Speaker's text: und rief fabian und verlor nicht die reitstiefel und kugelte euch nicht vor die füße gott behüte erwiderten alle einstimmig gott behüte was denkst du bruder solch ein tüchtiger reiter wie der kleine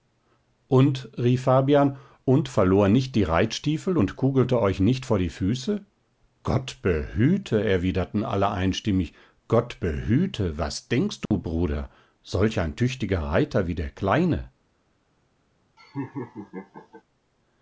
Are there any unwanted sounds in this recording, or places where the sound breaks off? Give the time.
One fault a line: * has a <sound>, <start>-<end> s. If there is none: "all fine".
* has a dropout, 11.3-11.3 s
* has a laugh, 15.8-17.0 s